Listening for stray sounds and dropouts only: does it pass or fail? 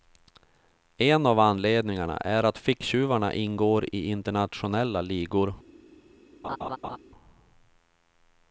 fail